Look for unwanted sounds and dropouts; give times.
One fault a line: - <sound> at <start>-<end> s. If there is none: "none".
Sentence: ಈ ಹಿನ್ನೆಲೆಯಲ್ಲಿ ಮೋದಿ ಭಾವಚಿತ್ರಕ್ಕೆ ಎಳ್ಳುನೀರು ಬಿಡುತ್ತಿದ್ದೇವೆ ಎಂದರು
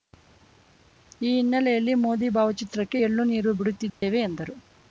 - dropout at 3.9-4.0 s